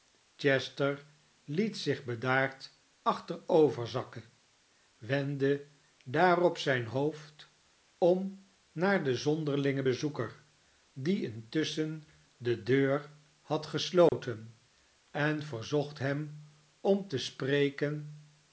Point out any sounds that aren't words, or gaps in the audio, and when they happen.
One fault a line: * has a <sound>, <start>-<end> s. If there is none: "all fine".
* has a dropout, 14.1-14.1 s